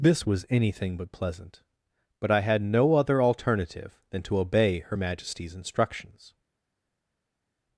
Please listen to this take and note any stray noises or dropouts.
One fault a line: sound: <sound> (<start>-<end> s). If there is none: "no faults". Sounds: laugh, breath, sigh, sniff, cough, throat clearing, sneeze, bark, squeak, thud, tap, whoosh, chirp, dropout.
no faults